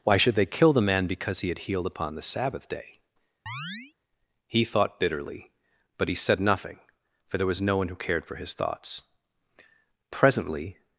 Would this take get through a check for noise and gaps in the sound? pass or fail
fail